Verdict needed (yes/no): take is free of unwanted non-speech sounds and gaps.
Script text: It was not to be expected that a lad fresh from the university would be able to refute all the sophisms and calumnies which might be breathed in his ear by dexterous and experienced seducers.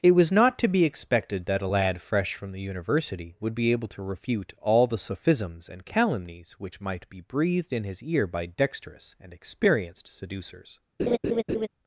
no